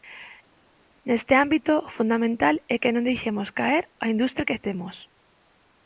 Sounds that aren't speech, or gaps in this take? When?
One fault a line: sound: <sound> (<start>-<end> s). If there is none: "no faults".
no faults